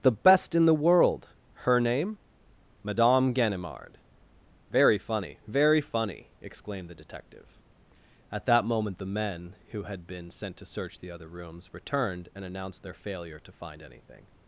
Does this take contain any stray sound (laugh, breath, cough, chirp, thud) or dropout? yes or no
no